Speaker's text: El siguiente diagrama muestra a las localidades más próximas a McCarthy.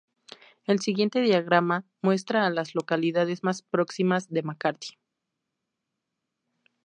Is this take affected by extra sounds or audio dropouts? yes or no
no